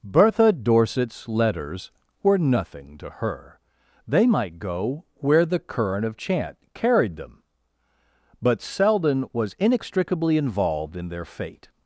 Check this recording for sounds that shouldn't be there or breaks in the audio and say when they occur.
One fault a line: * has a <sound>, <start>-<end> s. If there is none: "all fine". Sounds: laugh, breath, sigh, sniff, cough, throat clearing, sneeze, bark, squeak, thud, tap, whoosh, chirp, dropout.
all fine